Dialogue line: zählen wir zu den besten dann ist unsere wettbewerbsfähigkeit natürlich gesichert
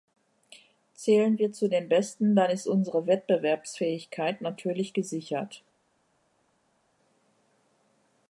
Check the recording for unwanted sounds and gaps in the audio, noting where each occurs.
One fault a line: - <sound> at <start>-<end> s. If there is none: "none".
none